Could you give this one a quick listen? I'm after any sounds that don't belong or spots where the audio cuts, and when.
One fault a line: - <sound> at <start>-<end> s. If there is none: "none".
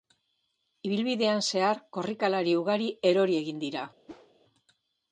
- whoosh at 4.1-4.3 s